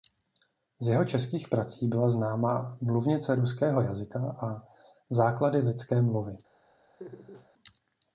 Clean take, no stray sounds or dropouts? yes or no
no